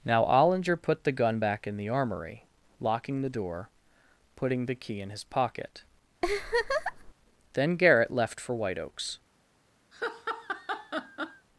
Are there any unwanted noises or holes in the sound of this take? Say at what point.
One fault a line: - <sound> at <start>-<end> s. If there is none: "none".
- laugh at 6.2-7.1 s
- laugh at 9.9-11.5 s